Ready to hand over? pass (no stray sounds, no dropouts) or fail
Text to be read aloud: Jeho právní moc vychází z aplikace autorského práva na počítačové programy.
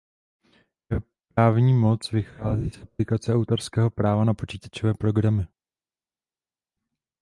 pass